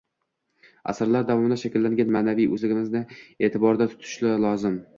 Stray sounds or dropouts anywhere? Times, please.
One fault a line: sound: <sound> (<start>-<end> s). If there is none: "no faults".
no faults